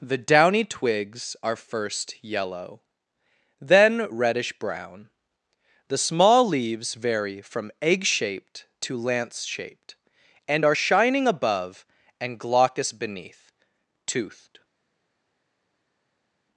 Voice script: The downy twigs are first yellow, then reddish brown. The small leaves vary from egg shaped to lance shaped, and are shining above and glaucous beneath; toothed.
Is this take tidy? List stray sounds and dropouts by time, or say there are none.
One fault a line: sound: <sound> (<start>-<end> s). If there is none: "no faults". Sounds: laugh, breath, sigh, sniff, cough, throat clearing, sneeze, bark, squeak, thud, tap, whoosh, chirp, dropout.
no faults